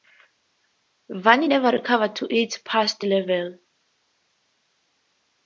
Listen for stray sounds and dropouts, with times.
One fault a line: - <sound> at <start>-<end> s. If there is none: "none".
none